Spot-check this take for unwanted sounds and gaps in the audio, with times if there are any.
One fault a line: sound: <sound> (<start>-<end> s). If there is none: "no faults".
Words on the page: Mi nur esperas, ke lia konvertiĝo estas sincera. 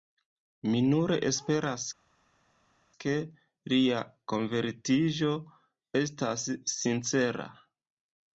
no faults